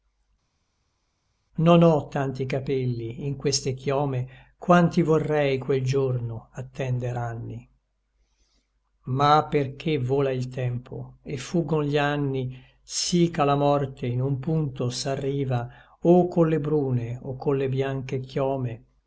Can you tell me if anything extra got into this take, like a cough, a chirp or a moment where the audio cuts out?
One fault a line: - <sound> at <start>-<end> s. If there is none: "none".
none